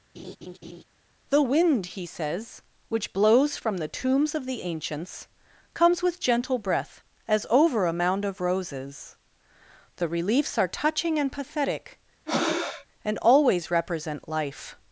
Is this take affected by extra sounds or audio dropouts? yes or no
yes